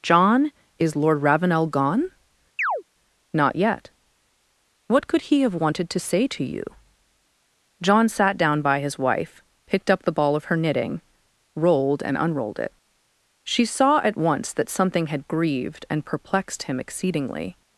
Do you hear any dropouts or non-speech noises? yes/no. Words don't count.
yes